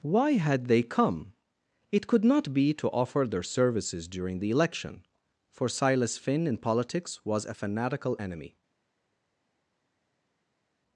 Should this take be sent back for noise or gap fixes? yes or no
no